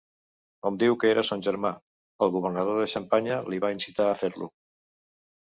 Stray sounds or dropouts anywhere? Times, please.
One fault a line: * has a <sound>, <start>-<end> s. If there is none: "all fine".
all fine